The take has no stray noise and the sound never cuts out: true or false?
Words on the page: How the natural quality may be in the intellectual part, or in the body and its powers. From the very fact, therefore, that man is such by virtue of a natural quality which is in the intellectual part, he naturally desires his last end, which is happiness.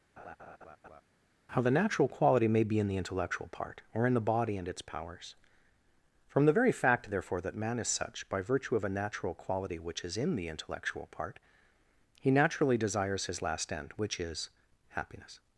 false